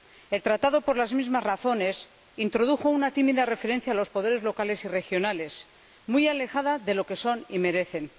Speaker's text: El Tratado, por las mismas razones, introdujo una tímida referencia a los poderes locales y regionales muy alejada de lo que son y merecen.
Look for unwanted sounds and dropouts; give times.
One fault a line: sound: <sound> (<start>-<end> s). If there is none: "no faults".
no faults